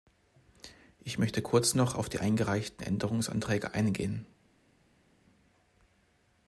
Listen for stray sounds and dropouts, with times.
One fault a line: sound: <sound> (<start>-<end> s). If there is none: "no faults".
no faults